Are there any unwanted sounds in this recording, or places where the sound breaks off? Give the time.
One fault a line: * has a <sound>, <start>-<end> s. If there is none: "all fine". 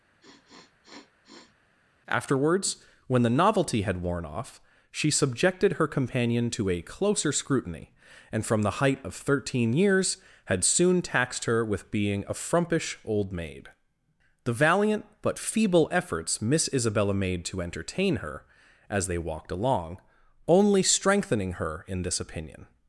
* has a sniff, 0.2-1.6 s